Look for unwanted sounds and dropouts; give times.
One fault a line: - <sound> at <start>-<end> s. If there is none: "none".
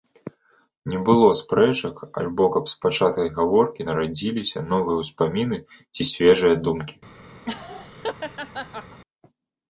- laugh at 7.4-9.0 s